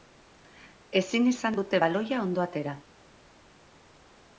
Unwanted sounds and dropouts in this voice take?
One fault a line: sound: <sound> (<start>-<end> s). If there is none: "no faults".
no faults